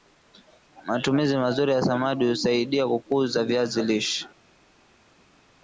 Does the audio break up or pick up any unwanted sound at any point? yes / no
no